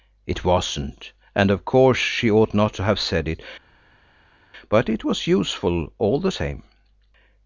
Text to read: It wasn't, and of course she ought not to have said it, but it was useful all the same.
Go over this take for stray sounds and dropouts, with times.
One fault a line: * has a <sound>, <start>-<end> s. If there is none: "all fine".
all fine